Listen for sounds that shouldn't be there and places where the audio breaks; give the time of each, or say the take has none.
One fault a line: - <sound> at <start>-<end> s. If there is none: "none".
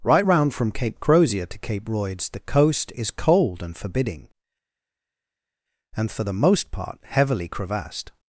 none